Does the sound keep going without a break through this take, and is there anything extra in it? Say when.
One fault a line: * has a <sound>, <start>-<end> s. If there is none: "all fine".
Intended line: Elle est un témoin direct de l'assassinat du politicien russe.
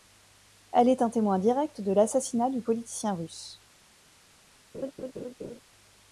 * has a laugh, 4.7-5.6 s